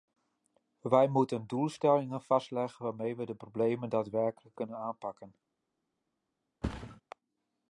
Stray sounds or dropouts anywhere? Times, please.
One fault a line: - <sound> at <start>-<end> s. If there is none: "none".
- thud at 6.6-7.0 s